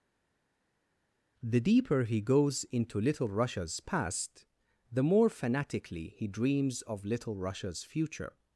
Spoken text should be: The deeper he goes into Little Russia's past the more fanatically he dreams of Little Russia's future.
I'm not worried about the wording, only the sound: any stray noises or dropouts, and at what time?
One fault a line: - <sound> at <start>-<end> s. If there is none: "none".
none